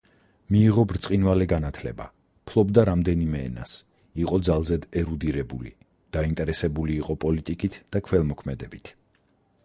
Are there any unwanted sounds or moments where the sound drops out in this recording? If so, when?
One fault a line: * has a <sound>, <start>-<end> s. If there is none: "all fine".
all fine